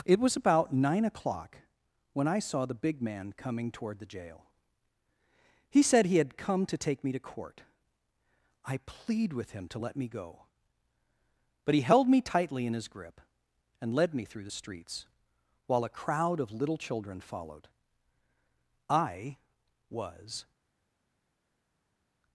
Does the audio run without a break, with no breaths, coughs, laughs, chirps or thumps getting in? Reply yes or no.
yes